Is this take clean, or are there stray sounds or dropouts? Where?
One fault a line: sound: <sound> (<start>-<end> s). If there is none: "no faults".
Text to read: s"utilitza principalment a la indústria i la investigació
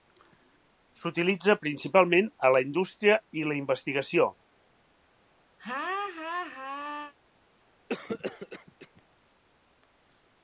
sound: laugh (5.6-7.1 s)
sound: cough (7.9-9.0 s)